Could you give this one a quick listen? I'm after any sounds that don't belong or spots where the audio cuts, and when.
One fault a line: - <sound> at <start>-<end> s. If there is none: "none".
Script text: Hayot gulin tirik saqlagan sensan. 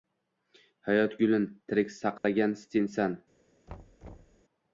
- dropout at 2.2-2.2 s
- thud at 3.7-4.4 s